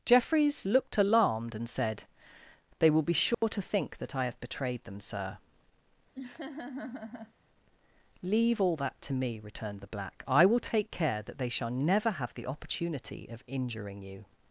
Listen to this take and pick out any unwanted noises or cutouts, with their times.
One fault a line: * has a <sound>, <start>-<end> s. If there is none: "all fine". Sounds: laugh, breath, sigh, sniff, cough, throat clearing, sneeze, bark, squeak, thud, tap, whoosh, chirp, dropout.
* has a dropout, 3.3-3.4 s
* has a laugh, 6.1-7.3 s